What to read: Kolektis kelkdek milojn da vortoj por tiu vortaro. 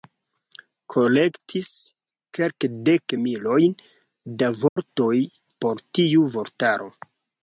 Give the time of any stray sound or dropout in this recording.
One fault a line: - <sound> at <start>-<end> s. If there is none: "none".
- dropout at 4.7-4.8 s